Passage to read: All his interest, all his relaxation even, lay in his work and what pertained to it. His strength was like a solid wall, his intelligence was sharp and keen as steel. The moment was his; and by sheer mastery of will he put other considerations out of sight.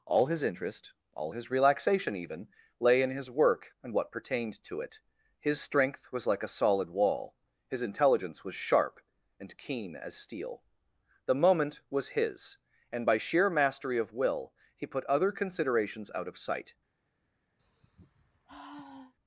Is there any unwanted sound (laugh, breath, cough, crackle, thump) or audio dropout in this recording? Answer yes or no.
yes